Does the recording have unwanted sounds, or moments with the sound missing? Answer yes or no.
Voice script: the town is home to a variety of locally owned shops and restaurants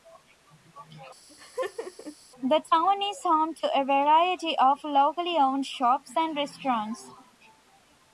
yes